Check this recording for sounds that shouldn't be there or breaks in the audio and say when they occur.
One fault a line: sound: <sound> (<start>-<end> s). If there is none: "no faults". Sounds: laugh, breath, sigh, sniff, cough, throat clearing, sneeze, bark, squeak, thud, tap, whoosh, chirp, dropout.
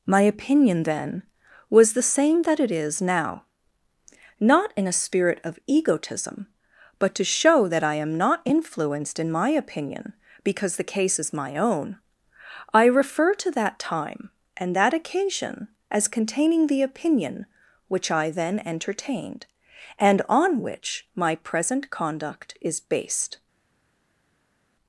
no faults